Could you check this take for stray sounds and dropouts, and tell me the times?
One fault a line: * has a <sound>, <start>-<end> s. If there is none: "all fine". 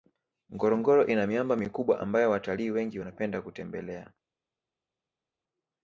all fine